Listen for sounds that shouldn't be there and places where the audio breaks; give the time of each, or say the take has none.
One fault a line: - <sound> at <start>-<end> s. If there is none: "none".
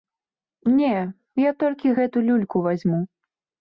none